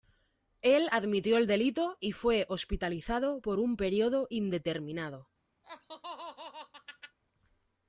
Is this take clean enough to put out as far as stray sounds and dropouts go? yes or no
no